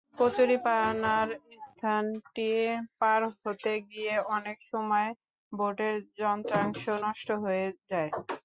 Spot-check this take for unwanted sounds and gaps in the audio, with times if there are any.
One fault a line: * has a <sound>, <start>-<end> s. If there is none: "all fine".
all fine